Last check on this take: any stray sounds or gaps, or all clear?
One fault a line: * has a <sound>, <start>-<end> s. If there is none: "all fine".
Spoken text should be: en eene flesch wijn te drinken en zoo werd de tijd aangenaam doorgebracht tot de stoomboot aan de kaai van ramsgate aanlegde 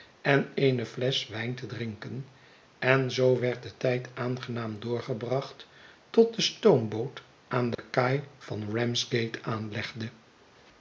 * has a dropout, 7.7-7.8 s